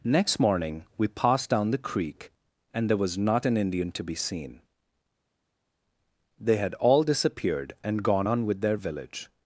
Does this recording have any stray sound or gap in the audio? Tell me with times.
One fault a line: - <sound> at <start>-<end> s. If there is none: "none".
none